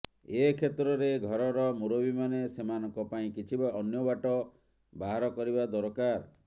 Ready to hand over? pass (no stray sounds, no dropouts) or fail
pass